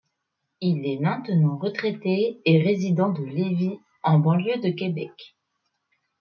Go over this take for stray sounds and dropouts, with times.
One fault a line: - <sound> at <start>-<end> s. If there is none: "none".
none